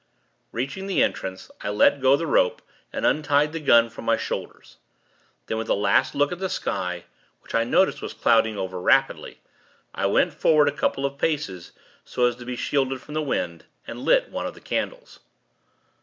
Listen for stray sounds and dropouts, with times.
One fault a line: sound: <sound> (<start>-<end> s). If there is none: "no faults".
no faults